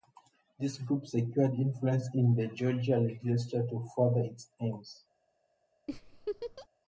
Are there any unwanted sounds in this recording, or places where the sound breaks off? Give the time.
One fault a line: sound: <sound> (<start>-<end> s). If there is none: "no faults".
sound: laugh (5.9-6.7 s)